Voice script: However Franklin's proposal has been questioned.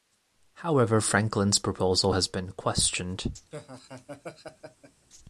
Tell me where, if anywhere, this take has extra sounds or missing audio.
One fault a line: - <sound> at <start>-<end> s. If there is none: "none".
- laugh at 3.5-5.1 s